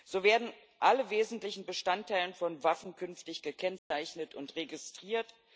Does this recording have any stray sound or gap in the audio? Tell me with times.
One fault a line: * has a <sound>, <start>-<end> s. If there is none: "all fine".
* has a dropout, 3.8-3.9 s